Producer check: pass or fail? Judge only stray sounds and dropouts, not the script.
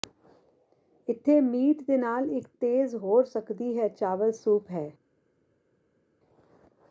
pass